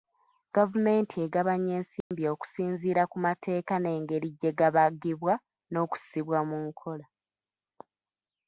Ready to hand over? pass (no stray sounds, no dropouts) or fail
fail